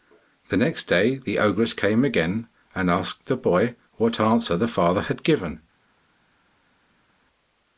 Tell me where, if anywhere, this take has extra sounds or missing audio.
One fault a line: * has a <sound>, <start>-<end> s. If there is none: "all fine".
all fine